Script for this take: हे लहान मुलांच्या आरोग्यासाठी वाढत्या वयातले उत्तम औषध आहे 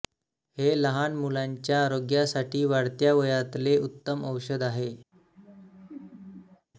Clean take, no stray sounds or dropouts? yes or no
no